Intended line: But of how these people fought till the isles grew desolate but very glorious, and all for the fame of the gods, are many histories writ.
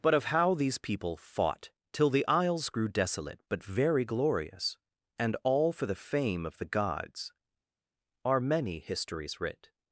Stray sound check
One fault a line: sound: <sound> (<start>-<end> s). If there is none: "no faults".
no faults